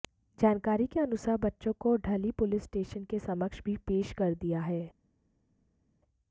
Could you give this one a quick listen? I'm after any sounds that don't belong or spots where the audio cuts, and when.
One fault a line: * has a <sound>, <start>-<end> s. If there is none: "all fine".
all fine